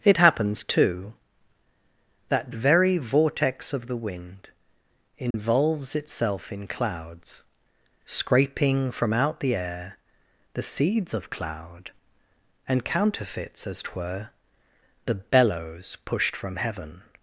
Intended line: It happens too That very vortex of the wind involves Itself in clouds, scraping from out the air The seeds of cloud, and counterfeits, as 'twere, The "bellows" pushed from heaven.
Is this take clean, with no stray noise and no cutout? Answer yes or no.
no